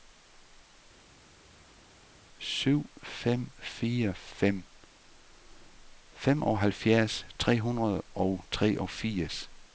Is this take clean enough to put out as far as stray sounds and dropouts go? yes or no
yes